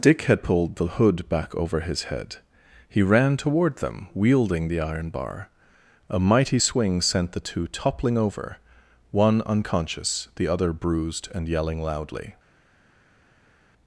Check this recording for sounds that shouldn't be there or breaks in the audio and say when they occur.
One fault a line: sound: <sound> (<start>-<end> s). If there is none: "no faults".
no faults